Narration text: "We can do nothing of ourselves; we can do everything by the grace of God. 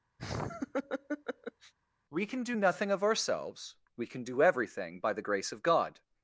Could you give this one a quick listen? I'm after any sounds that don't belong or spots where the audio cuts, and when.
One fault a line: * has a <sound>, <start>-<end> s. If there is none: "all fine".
* has a laugh, 0.2-1.7 s